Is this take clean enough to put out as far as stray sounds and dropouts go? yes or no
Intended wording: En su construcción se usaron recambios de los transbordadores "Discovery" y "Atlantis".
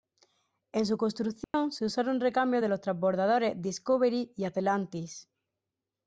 no